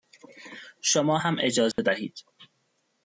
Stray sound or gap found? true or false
true